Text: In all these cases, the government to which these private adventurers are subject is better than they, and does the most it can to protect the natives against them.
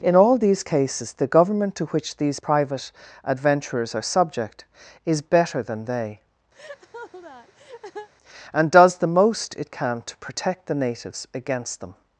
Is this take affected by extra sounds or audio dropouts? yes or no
yes